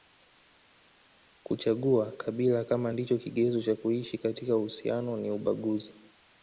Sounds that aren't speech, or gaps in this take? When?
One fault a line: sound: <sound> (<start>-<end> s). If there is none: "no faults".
no faults